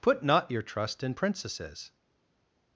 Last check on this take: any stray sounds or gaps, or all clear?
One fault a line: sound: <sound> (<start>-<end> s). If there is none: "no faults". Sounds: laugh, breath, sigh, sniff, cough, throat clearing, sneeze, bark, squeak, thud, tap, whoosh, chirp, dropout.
no faults